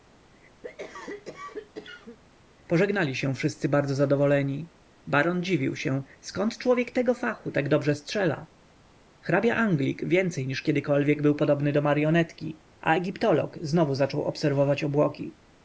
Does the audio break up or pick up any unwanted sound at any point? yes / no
yes